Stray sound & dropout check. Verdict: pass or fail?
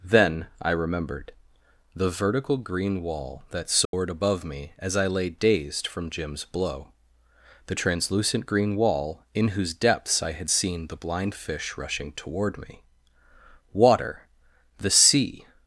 fail